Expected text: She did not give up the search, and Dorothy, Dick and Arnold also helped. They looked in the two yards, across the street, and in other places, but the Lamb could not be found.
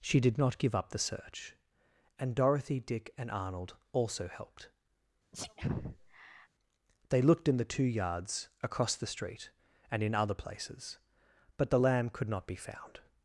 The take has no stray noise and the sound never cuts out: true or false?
false